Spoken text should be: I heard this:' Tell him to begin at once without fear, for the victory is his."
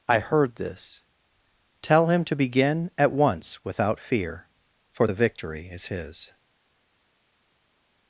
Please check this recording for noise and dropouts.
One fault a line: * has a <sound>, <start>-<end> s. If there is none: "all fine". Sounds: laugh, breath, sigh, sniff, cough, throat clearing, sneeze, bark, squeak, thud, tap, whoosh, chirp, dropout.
all fine